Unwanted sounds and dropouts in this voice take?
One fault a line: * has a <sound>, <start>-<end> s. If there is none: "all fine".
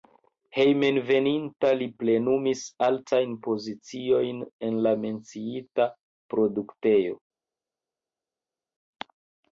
all fine